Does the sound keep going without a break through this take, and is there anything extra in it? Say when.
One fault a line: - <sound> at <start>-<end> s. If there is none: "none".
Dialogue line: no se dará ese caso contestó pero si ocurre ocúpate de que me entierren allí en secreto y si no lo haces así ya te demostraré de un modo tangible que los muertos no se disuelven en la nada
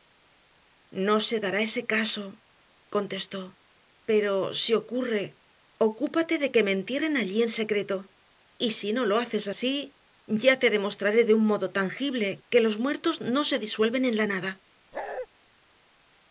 - bark at 14.9-15.3 s